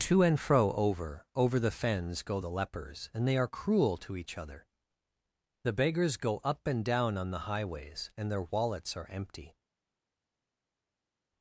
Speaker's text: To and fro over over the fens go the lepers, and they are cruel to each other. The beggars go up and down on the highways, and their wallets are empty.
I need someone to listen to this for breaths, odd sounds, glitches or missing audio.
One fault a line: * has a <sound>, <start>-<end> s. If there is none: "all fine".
all fine